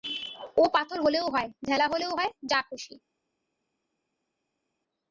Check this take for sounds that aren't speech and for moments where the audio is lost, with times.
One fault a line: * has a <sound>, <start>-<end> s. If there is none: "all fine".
all fine